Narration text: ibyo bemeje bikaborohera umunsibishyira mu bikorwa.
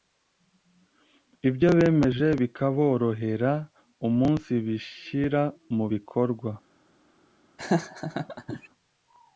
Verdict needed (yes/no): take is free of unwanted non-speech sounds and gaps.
no